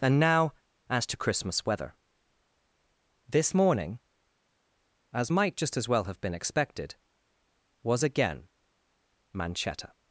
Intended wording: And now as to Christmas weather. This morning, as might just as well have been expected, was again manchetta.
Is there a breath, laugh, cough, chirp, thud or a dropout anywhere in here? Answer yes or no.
no